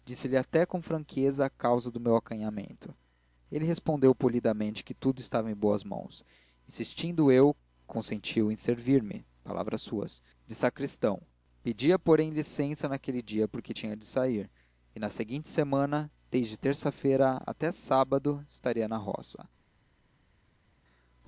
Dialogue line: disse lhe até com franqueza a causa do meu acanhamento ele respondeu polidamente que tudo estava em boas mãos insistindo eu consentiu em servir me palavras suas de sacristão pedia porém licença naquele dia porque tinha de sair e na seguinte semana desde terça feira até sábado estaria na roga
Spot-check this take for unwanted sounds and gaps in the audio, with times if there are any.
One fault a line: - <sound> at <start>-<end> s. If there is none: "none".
none